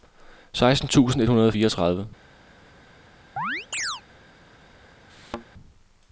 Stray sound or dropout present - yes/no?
yes